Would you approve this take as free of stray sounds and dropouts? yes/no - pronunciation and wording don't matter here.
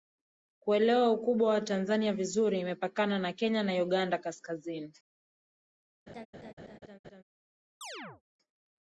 no